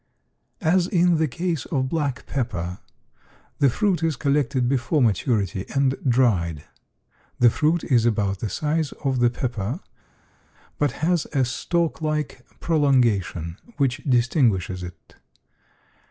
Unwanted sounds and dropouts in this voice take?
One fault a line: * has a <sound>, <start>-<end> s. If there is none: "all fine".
all fine